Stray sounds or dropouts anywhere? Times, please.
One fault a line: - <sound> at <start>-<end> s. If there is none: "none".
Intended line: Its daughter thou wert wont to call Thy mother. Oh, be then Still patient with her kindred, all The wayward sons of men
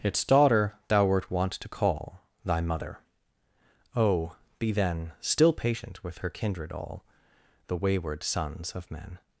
none